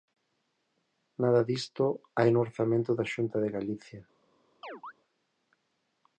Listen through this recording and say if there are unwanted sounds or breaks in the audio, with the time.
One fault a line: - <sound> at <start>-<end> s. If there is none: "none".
- chirp at 4.6-4.9 s